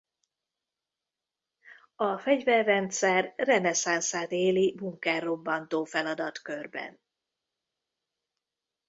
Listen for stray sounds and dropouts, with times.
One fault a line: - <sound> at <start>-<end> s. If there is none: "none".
none